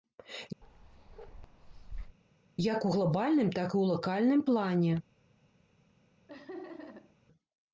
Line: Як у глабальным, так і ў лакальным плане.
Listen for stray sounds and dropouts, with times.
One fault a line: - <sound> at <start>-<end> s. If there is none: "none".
- bark at 0.6-2.2 s
- laugh at 6.3-7.2 s